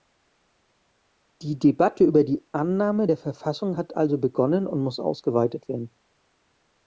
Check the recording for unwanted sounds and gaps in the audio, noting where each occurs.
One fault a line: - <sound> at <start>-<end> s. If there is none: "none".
none